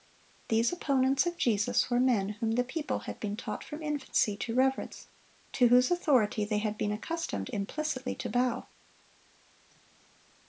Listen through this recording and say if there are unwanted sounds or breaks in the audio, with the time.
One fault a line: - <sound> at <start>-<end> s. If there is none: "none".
none